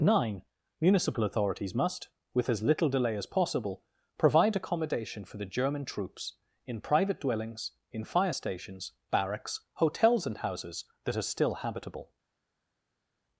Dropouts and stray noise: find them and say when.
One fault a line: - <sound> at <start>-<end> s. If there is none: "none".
none